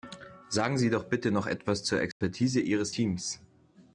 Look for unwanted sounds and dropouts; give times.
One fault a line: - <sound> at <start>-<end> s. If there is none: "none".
- dropout at 2.1-2.2 s